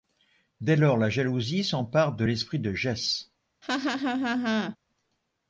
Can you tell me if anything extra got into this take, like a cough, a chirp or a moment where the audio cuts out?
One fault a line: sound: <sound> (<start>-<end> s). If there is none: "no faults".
sound: laugh (3.6-4.8 s)